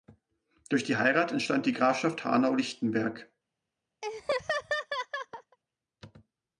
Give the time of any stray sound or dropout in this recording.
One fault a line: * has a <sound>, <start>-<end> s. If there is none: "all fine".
* has a laugh, 4.0-5.6 s